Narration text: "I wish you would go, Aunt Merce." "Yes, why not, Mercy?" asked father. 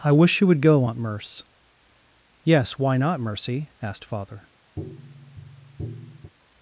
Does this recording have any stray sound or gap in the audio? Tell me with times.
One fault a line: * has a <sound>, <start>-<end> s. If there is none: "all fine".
* has a tap, 4.8-6.3 s